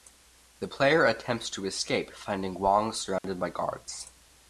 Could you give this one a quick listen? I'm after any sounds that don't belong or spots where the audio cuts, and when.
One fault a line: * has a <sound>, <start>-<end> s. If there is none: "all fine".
* has a dropout, 3.2-3.2 s